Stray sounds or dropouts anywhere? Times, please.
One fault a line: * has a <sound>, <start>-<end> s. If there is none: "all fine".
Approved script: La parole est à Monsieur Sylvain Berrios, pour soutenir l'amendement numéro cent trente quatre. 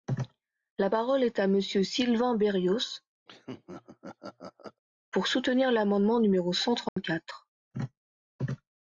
* has a laugh, 3.3-4.8 s
* has a dropout, 6.9-7.0 s